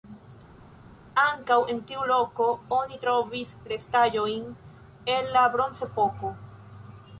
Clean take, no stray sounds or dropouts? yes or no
yes